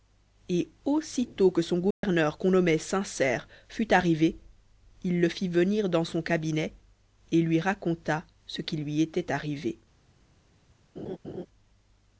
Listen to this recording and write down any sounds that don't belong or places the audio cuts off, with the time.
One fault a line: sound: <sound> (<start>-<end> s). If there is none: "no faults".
sound: dropout (1.9-2.0 s)
sound: laugh (11.0-11.5 s)